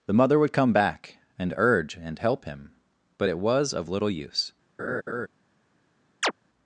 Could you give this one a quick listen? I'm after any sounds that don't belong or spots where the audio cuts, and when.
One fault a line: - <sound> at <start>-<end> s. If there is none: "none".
- laugh at 4.8-5.3 s
- chirp at 6.2-6.3 s